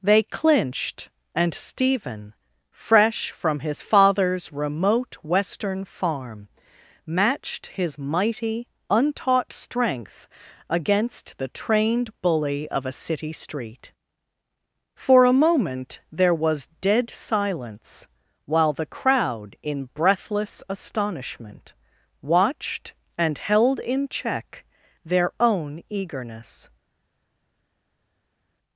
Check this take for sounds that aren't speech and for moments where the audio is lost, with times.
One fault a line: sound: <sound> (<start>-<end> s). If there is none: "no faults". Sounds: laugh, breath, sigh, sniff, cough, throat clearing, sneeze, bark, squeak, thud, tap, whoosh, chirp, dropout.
no faults